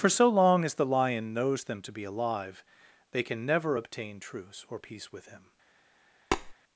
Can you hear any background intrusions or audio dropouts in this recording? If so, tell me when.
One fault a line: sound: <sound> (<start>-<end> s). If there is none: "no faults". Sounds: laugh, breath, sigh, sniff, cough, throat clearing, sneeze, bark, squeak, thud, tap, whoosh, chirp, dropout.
sound: tap (6.3-6.5 s)